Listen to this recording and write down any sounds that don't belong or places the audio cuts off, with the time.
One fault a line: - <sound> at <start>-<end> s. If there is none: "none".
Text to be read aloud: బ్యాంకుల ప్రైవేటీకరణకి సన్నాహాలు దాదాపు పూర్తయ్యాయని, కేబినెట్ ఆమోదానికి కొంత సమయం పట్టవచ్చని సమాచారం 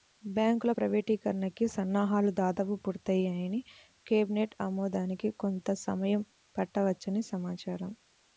none